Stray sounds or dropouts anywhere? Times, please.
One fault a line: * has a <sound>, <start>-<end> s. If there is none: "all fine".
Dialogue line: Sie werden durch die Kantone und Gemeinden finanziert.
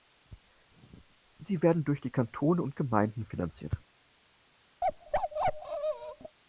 * has a bark, 4.8-6.4 s